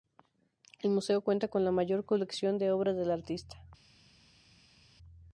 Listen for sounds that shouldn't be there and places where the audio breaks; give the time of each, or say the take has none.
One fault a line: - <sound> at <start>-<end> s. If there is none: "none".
none